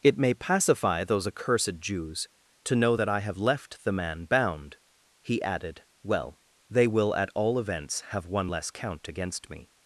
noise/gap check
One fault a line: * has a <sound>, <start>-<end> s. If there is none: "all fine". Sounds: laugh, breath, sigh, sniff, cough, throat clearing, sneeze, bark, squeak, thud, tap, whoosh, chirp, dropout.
all fine